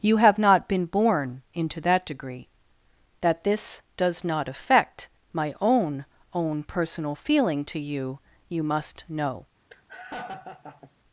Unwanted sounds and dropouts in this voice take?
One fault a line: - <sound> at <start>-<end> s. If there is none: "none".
- laugh at 9.7-10.9 s